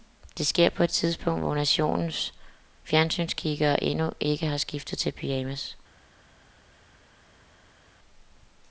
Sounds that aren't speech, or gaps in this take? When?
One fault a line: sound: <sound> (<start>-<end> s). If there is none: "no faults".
no faults